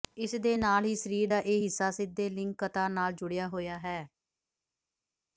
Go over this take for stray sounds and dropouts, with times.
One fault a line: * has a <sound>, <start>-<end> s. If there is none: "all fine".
all fine